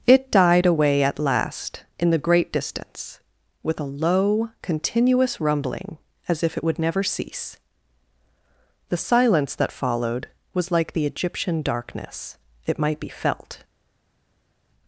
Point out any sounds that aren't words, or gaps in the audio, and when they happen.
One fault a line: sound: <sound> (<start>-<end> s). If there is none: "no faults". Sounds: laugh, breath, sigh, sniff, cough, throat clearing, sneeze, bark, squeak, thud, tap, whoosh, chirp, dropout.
no faults